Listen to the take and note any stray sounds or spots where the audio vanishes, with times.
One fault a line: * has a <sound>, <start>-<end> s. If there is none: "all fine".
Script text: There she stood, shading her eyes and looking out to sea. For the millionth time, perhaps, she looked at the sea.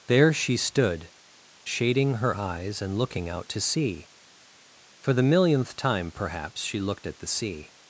all fine